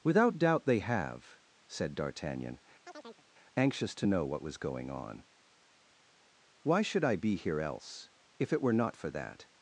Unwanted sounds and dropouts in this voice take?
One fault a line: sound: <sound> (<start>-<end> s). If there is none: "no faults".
sound: chirp (2.9-3.3 s)